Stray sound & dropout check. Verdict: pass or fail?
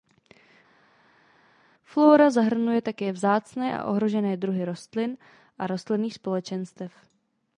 pass